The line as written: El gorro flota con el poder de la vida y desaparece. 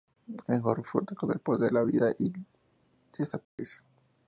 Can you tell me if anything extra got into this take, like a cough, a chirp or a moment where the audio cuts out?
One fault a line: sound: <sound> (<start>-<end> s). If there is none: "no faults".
sound: dropout (3.4-3.6 s)